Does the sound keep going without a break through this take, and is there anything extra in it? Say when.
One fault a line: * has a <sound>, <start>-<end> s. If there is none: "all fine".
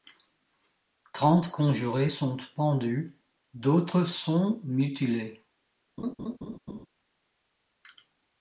* has a laugh, 6.0-6.9 s